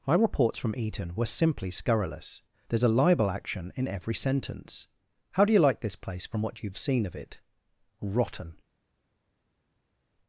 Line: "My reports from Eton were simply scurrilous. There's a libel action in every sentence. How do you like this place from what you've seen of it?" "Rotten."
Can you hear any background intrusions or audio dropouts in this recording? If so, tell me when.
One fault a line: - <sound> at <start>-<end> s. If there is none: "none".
none